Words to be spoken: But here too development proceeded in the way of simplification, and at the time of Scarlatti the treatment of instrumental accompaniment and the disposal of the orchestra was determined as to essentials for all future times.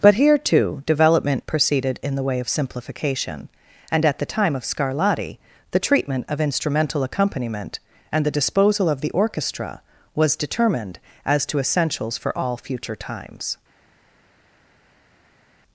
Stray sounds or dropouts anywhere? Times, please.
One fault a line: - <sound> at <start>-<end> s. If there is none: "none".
none